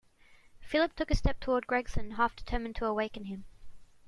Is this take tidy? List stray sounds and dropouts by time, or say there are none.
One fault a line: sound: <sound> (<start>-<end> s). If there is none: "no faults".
no faults